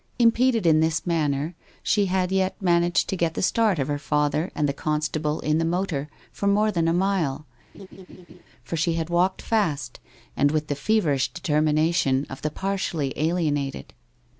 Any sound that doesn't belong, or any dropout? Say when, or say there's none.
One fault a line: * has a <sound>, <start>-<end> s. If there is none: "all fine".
* has a laugh, 7.7-8.4 s